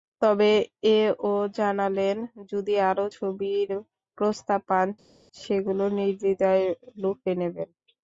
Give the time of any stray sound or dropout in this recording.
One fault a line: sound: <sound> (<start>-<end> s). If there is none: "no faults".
no faults